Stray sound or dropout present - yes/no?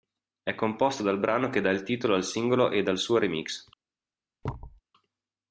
yes